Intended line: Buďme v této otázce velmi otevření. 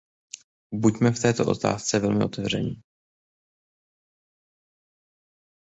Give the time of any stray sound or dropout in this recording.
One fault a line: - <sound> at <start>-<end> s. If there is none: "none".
none